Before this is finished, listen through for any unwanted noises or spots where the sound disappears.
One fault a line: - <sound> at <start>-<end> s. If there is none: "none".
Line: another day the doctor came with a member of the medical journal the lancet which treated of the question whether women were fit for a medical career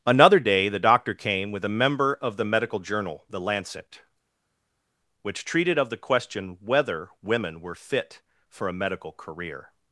none